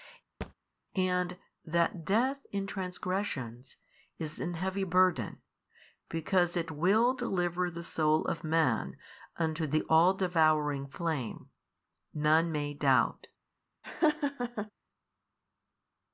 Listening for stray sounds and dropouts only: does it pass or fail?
fail